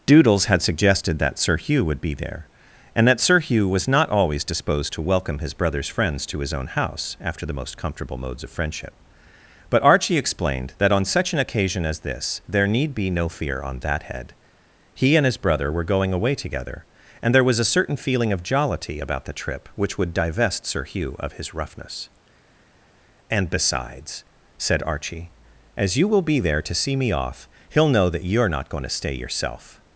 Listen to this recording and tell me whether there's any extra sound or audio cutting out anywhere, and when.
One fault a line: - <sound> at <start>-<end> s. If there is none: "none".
none